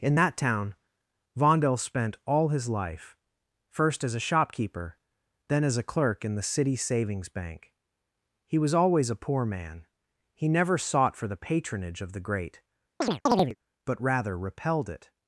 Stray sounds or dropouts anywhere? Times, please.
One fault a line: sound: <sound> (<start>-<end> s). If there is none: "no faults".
sound: chirp (13.0-13.6 s)